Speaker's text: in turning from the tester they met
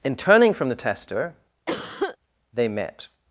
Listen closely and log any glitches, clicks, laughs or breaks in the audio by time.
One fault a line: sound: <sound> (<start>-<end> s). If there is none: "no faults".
sound: cough (1.7-2.2 s)